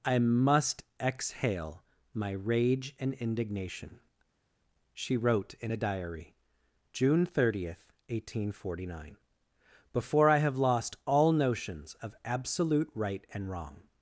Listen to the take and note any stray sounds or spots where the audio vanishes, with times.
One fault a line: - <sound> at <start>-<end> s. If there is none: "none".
none